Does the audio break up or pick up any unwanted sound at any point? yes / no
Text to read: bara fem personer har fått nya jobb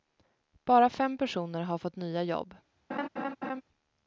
yes